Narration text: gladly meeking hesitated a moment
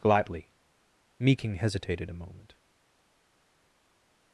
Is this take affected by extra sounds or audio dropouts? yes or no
no